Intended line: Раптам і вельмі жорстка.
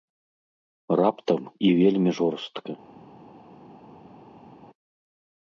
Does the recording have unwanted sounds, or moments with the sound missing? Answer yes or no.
no